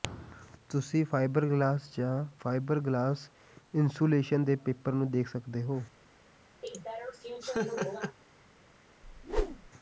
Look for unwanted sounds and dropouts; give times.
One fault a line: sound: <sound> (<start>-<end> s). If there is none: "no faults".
sound: laugh (6.6-8.2 s)
sound: whoosh (9.0-9.7 s)